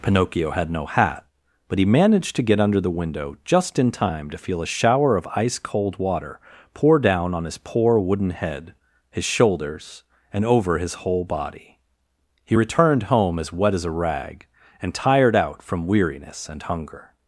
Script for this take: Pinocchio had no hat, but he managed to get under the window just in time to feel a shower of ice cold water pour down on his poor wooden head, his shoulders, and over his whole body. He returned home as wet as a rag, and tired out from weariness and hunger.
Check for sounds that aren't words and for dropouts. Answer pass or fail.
pass